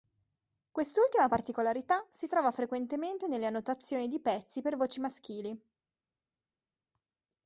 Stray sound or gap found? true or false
false